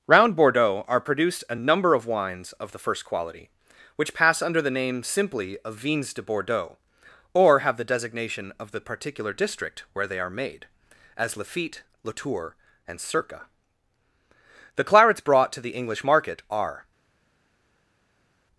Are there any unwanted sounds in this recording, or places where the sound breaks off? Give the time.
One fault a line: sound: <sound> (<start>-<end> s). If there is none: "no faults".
no faults